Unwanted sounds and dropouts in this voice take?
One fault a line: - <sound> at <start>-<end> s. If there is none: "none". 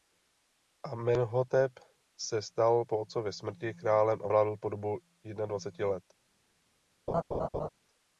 - laugh at 7.1-7.7 s